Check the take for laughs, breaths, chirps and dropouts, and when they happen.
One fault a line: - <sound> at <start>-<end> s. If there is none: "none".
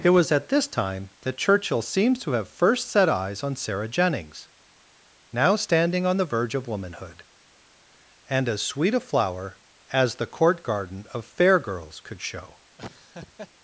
- laugh at 12.8-13.5 s